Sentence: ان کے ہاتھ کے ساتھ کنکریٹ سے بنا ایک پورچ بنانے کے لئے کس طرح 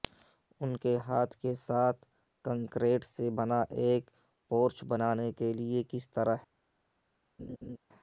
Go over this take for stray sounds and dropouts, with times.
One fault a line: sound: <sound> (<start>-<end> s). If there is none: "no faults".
sound: laugh (7.4-7.8 s)